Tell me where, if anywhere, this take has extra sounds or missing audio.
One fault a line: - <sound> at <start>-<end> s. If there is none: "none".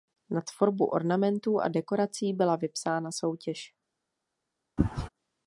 - sneeze at 4.8-5.1 s